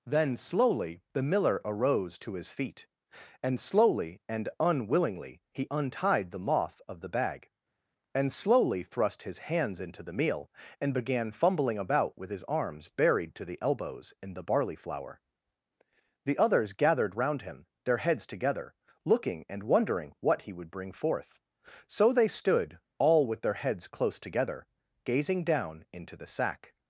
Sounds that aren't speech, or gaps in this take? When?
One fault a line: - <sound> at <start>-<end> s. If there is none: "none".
none